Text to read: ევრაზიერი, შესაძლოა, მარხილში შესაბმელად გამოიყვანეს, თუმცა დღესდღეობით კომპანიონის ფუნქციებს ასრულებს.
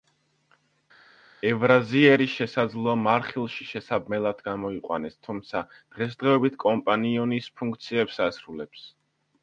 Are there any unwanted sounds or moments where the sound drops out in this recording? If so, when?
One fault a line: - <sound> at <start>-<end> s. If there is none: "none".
none